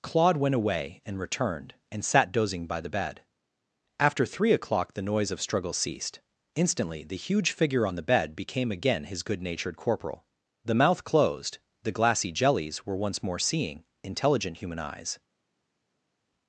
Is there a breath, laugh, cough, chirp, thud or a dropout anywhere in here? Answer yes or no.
no